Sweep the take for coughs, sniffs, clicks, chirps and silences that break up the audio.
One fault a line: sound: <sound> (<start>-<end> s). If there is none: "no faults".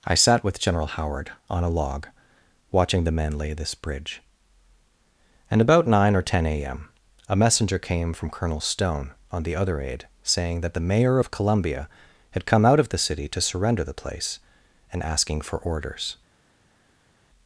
no faults